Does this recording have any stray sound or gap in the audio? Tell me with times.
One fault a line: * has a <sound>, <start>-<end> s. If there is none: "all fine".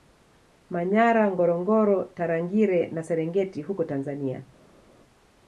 all fine